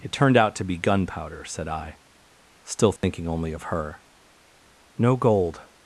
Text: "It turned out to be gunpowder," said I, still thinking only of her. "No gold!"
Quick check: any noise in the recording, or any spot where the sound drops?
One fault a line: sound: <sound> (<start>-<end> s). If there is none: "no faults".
sound: dropout (3.0-3.0 s)